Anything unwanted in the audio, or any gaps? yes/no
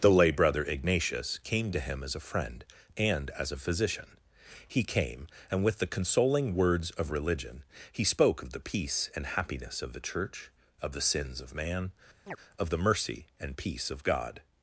yes